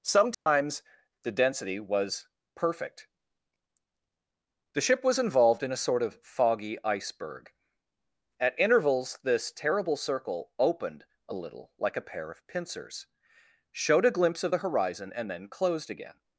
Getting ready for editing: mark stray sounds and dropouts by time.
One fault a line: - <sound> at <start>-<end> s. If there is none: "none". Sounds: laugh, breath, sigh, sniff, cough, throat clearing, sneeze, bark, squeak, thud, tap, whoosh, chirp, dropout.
- dropout at 0.3-0.5 s